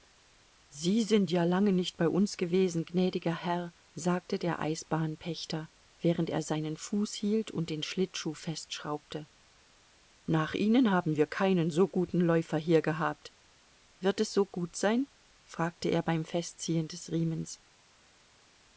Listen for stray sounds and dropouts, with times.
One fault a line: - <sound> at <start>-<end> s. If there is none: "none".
none